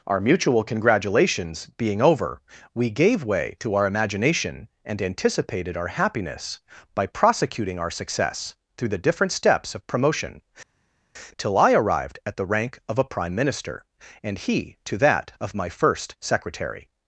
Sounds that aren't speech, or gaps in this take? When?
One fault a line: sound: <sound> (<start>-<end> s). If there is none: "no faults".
no faults